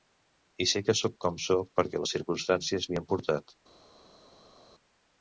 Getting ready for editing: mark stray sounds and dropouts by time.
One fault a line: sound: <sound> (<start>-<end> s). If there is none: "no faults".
no faults